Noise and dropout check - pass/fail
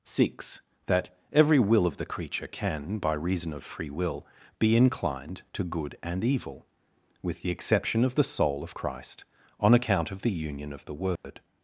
fail